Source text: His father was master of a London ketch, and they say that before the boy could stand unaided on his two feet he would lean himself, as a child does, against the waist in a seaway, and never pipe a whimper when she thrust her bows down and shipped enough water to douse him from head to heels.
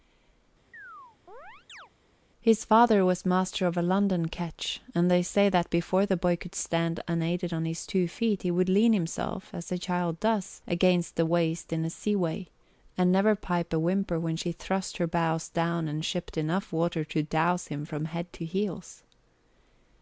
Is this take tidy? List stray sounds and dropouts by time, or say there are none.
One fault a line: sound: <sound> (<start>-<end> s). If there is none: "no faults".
sound: chirp (0.7-1.9 s)